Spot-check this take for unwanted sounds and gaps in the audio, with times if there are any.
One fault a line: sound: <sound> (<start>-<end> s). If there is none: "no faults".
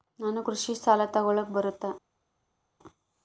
no faults